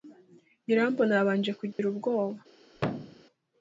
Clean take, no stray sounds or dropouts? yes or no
no